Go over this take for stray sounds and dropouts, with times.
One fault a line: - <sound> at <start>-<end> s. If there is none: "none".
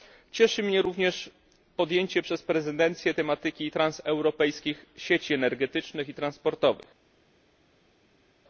none